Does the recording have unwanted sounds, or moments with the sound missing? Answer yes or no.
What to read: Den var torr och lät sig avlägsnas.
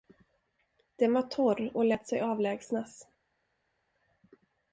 no